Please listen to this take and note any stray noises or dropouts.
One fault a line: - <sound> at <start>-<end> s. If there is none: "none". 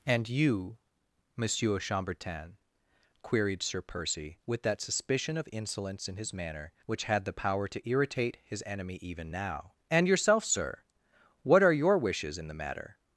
none